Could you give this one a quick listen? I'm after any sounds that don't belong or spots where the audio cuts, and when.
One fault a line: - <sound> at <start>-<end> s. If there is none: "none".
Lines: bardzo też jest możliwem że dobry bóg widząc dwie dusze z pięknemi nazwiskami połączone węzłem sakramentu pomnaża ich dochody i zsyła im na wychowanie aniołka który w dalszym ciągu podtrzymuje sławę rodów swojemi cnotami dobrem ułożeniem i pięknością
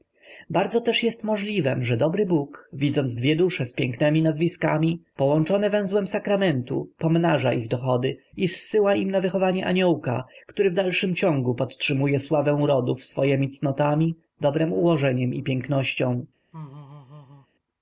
- laugh at 16.5-17.5 s